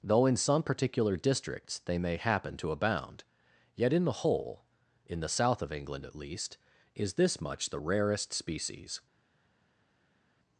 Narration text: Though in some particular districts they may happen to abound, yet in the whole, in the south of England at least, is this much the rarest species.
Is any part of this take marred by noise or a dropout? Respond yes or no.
no